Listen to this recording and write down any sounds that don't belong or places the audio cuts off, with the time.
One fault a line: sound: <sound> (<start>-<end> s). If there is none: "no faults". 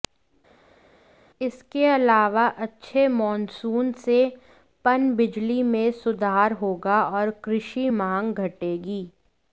no faults